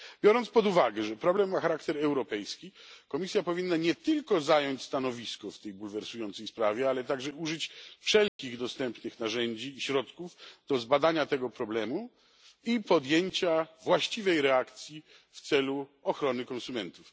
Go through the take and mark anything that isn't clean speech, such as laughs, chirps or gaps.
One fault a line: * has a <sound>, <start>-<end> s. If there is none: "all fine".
* has a dropout, 8.3-8.4 s